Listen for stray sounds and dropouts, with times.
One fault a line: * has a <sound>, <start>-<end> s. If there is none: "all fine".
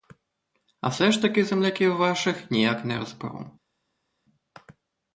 all fine